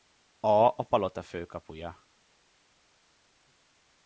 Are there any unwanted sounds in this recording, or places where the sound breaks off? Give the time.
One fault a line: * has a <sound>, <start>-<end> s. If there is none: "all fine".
all fine